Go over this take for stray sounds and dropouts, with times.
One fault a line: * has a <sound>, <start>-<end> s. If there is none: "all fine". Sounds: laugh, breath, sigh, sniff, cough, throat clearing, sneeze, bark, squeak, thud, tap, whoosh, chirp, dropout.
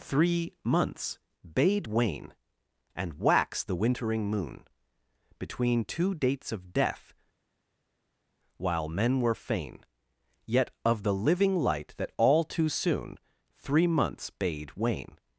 all fine